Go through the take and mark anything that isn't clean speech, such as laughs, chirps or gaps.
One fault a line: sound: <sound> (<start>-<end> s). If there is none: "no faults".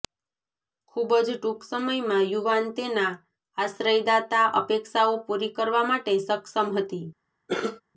sound: cough (7.5-7.8 s)